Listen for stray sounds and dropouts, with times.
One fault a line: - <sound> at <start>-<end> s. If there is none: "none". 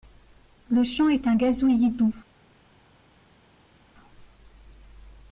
none